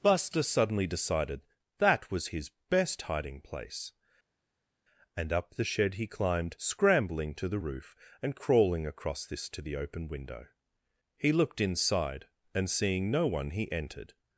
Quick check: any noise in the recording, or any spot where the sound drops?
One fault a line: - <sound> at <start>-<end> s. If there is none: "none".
none